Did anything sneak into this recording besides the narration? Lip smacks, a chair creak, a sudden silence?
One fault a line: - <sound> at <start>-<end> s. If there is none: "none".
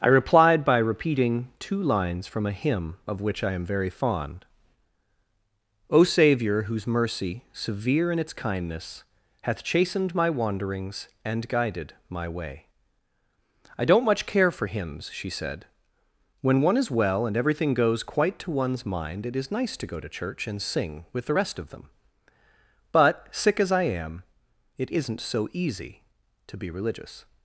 none